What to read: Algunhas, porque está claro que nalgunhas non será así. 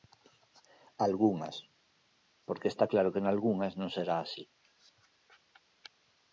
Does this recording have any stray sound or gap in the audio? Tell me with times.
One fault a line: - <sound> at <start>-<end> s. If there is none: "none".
none